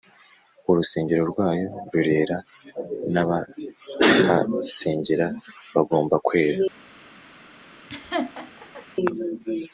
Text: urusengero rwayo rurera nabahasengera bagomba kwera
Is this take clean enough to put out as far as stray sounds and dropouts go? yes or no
no